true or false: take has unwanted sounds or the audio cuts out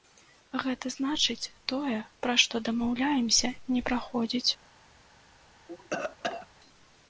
true